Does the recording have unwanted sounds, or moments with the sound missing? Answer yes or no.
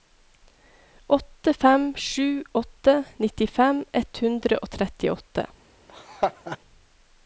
yes